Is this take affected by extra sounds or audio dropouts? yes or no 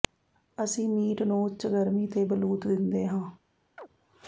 yes